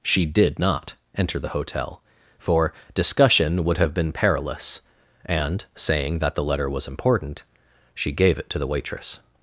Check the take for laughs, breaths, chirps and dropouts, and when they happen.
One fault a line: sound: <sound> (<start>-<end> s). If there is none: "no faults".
no faults